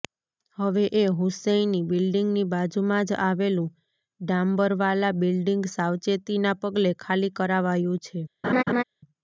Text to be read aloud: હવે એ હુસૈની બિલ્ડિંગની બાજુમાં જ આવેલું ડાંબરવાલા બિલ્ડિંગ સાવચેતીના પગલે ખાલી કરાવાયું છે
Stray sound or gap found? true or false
true